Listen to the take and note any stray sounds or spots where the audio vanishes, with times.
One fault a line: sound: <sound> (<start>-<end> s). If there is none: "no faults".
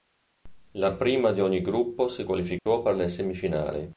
sound: dropout (2.6-2.7 s)